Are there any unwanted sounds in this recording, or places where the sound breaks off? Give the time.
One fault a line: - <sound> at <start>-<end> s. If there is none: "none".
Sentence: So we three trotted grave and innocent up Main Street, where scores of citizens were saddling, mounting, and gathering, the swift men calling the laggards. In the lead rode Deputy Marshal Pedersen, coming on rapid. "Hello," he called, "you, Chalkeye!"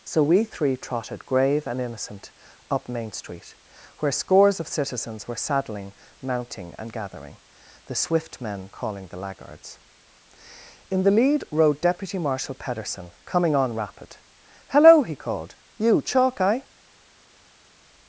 none